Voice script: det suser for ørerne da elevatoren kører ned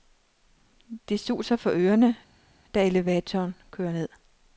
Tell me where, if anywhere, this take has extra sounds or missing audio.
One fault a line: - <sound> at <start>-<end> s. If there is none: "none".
none